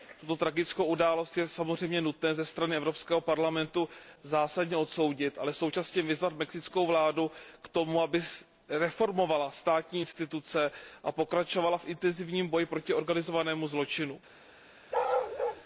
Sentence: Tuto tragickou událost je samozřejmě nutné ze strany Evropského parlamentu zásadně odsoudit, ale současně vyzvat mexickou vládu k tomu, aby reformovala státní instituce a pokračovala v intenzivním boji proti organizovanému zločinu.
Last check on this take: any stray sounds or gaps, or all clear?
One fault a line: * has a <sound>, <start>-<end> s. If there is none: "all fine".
* has a bark, 14.9-15.6 s